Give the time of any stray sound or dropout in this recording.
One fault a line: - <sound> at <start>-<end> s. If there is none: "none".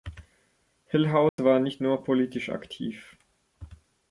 - dropout at 1.3-1.4 s